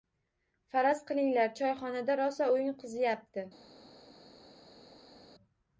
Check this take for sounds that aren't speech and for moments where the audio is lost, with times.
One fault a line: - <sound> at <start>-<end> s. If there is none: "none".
none